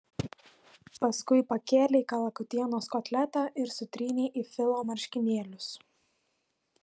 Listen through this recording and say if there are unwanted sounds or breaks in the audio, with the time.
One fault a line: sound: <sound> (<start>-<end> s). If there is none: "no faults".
no faults